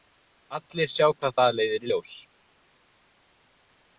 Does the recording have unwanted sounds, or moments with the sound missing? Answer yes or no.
no